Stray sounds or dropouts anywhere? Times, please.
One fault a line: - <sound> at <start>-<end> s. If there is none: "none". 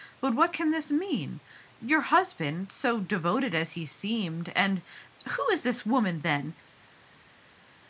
none